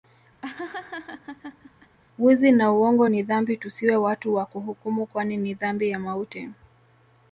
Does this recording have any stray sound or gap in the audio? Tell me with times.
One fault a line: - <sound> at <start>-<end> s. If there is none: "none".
- laugh at 0.4-2.0 s